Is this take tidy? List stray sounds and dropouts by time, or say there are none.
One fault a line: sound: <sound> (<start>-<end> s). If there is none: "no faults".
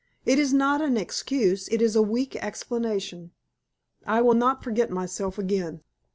no faults